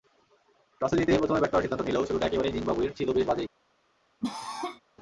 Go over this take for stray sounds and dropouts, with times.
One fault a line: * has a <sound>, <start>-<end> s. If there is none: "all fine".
* has a cough, 4.2-4.8 s